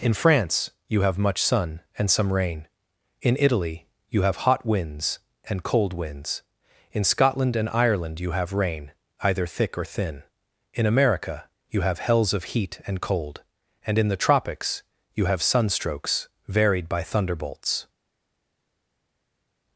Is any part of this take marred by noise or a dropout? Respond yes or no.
no